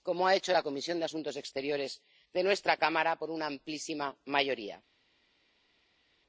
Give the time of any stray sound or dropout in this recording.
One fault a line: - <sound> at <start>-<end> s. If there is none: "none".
none